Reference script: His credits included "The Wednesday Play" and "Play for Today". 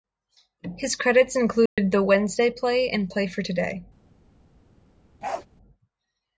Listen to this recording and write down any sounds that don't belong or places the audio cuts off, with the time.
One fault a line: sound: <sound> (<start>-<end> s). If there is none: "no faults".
sound: dropout (1.7-1.8 s)
sound: bark (5.2-5.5 s)